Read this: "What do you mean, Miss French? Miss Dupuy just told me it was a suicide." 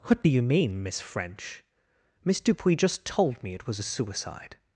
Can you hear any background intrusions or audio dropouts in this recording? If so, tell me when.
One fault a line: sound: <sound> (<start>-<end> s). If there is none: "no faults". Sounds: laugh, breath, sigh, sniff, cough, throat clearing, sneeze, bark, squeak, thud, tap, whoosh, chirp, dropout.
no faults